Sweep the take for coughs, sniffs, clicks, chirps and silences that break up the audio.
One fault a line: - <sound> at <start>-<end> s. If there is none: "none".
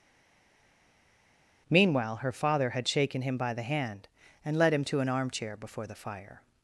none